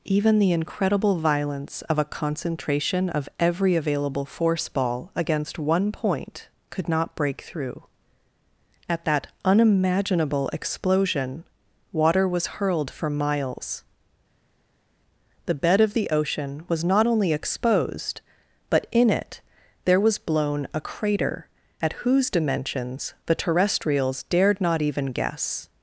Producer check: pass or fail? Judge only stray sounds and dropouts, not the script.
pass